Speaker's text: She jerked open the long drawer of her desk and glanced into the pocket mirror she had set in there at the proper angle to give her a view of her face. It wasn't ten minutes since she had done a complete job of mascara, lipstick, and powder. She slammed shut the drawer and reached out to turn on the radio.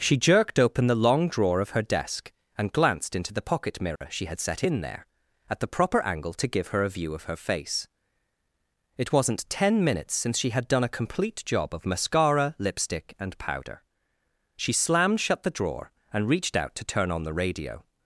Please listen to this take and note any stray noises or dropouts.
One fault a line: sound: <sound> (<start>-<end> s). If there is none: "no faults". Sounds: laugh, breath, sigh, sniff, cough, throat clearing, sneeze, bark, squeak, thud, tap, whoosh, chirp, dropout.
sound: dropout (4.0-4.0 s)